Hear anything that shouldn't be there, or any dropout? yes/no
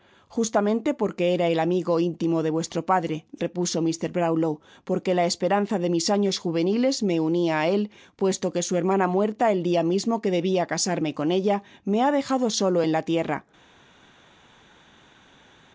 no